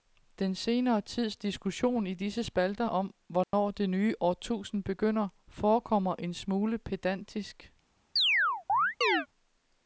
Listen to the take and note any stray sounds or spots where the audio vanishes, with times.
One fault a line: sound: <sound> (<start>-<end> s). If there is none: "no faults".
sound: dropout (3.4-3.5 s)
sound: chirp (8.2-9.3 s)